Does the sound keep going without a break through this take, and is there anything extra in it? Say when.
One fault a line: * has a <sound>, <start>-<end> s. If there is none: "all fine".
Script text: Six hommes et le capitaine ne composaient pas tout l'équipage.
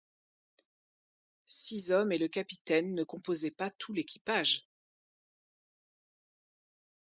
all fine